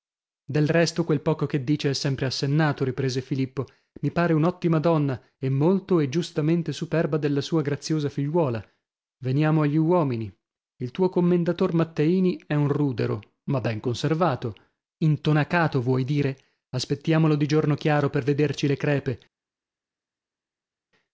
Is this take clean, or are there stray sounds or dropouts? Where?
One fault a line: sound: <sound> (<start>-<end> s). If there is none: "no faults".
no faults